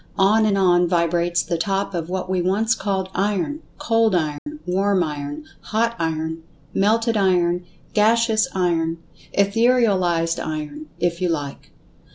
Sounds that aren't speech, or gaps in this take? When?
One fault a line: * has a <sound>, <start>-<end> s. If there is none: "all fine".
* has a dropout, 4.4-4.5 s